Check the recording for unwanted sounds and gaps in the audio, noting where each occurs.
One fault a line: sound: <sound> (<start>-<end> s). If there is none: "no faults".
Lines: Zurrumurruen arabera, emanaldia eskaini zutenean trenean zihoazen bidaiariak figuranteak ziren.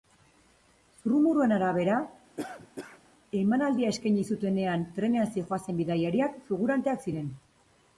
sound: cough (2.4-3.0 s)